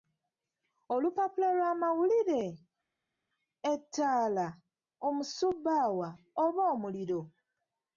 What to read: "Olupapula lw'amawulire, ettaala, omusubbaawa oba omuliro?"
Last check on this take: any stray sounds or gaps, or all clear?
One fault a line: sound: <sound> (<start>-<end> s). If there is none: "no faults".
no faults